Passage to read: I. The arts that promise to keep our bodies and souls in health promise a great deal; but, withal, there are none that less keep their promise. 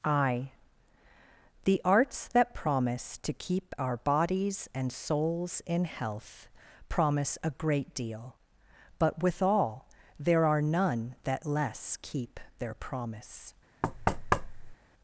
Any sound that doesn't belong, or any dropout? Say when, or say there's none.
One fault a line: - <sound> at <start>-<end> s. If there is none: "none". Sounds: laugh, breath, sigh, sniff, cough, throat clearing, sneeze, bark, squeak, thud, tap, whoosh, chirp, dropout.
- thud at 13.8-14.8 s